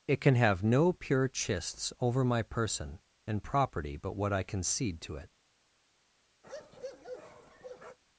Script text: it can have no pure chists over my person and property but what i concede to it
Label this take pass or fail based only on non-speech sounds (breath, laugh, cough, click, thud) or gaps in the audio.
fail